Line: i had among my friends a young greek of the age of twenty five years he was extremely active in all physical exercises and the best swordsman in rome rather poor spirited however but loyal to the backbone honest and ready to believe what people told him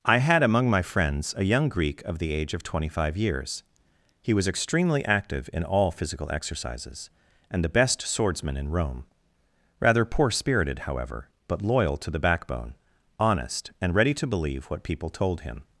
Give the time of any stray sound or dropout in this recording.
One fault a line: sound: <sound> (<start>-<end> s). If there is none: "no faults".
no faults